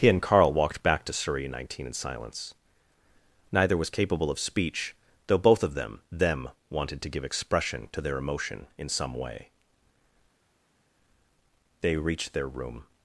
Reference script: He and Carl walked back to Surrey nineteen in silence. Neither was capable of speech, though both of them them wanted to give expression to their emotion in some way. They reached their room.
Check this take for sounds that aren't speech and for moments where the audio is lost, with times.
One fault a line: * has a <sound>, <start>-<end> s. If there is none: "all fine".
all fine